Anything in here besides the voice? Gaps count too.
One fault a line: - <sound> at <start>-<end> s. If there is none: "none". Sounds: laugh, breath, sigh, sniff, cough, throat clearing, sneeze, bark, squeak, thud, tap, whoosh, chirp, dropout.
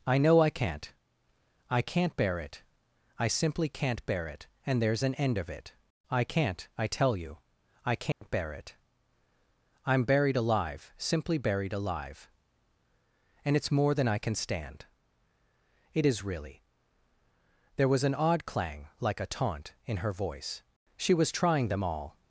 - dropout at 8.1-8.2 s